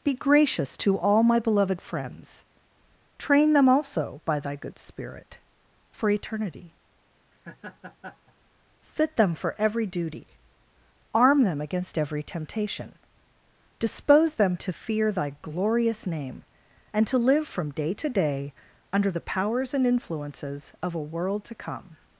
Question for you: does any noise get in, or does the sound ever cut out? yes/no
yes